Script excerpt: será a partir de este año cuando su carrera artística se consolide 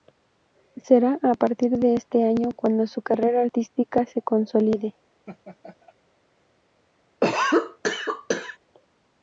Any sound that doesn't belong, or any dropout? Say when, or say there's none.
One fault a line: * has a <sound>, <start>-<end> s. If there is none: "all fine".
* has a laugh, 5.3-5.9 s
* has a cough, 7.2-8.6 s